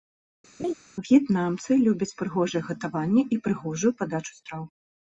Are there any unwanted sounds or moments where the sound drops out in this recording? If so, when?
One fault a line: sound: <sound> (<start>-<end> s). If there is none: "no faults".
sound: laugh (0.6-0.7 s)